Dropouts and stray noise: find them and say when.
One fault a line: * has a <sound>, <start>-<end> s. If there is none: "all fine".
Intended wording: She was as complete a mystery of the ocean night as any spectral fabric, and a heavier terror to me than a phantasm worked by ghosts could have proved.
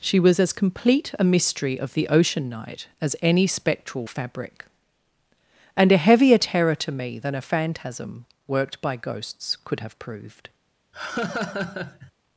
* has a laugh, 10.9-12.1 s